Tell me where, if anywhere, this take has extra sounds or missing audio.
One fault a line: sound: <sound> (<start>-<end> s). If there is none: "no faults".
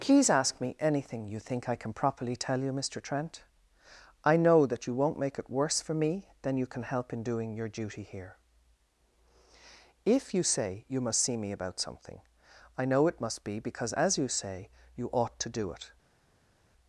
no faults